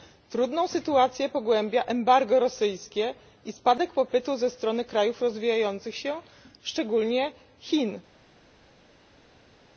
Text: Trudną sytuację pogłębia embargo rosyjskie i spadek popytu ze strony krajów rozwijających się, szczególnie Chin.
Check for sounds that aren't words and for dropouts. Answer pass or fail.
pass